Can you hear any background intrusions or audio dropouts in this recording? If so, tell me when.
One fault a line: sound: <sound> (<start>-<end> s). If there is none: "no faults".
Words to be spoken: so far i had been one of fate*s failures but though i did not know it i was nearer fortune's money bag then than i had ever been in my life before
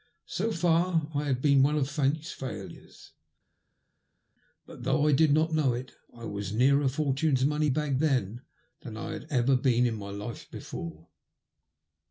no faults